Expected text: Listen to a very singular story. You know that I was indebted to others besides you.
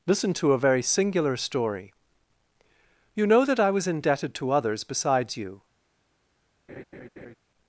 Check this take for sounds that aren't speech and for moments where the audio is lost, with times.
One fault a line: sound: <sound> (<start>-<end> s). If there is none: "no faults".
sound: laugh (6.7-7.4 s)